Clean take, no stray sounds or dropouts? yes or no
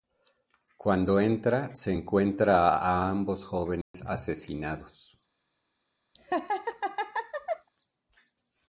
no